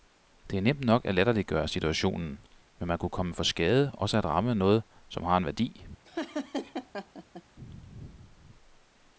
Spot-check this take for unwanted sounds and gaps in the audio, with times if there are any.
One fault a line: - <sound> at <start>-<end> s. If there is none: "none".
- laugh at 6.0-7.4 s